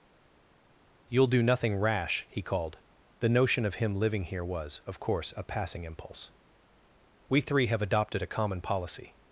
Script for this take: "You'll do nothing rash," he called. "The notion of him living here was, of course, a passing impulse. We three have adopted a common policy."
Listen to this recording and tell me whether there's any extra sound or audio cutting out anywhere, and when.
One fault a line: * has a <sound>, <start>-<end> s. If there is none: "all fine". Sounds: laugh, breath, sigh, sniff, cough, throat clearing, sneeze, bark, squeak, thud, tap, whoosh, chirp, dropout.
all fine